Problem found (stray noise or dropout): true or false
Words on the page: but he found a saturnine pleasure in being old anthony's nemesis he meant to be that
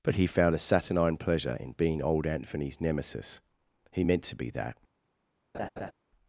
true